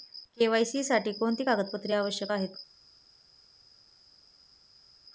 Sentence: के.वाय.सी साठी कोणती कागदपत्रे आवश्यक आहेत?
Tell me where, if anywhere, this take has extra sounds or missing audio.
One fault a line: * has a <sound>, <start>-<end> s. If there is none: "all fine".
all fine